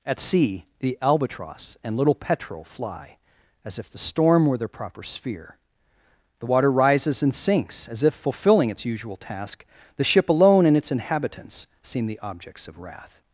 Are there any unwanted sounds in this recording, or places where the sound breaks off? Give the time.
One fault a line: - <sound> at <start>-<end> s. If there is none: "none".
none